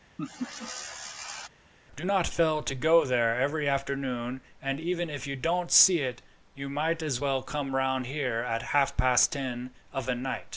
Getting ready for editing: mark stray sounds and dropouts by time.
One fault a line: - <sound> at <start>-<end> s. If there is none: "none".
- laugh at 0.2-1.5 s